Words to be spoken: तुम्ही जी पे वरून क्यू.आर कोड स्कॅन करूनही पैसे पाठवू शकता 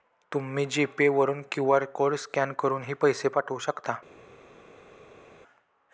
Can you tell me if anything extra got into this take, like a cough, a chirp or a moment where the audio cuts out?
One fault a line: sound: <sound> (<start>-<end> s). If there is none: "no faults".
no faults